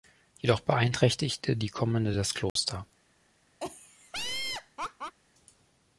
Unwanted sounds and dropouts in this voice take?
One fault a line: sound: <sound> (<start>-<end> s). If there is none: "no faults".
sound: dropout (2.5-2.6 s)
sound: laugh (3.6-5.2 s)